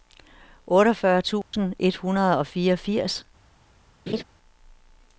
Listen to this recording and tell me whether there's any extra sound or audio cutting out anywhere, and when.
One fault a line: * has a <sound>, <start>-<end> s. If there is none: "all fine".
* has a dropout, 1.4-1.5 s
* has a laugh, 4.1-4.2 s